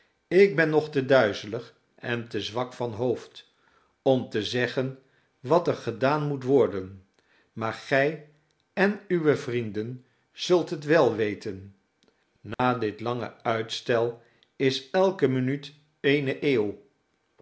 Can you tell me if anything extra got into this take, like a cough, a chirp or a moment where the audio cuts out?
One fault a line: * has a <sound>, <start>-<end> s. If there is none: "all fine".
* has a dropout, 12.5-12.6 s